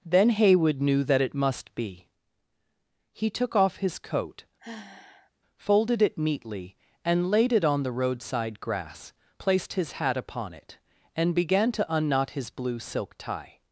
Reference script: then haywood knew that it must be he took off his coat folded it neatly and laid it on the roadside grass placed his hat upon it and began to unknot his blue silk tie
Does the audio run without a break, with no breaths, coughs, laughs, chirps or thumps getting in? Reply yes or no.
no